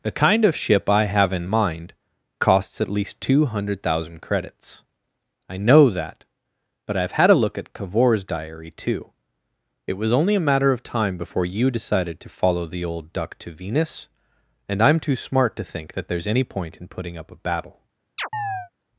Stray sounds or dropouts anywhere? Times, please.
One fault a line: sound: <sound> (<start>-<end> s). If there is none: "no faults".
sound: chirp (18.2-18.7 s)